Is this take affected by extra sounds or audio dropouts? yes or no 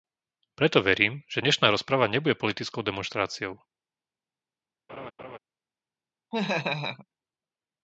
yes